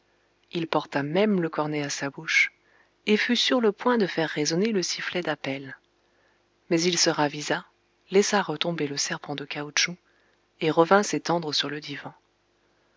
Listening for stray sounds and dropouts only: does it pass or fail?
pass